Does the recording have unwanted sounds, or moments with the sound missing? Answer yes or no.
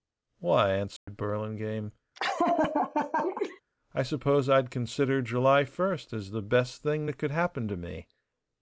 yes